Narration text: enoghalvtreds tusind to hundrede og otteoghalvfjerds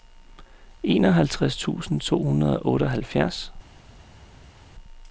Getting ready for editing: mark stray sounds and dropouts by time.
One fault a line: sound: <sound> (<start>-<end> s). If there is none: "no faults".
no faults